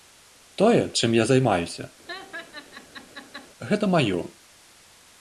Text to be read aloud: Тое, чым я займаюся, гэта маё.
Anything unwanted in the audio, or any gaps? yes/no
yes